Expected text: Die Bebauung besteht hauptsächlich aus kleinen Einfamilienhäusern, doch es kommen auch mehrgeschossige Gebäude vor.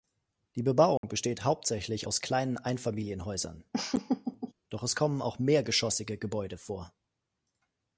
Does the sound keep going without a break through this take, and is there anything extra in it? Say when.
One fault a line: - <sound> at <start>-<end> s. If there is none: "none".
- dropout at 1.0-1.0 s
- laugh at 3.7-4.5 s